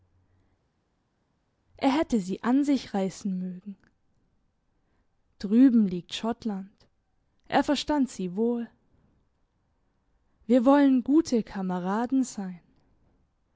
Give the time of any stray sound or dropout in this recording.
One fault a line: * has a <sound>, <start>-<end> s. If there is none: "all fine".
all fine